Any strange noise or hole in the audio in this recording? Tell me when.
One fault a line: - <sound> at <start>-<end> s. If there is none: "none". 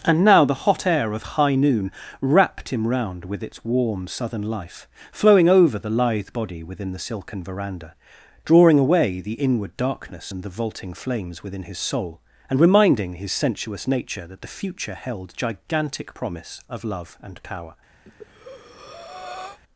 - breath at 18.1-19.6 s